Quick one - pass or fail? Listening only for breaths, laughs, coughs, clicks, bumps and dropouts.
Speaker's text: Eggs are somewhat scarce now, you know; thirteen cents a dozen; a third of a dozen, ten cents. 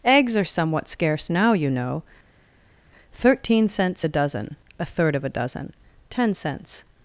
pass